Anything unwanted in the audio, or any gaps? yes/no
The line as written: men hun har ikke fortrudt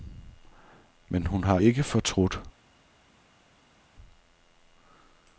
no